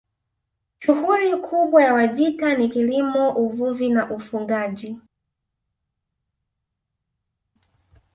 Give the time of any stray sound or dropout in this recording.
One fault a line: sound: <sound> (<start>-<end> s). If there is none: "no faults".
no faults